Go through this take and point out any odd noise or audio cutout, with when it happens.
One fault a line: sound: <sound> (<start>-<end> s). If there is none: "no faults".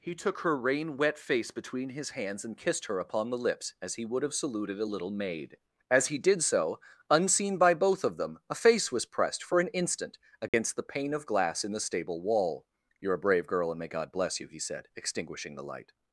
sound: dropout (10.5-10.5 s)